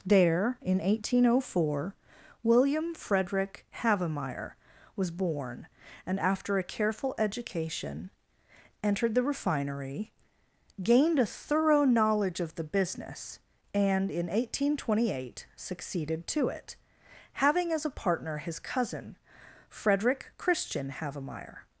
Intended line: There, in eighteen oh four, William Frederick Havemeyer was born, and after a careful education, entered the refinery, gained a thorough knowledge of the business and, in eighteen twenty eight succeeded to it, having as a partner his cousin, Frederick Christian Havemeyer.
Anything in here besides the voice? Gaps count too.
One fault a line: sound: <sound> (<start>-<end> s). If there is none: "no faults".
no faults